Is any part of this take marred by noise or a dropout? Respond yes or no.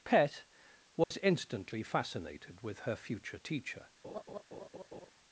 yes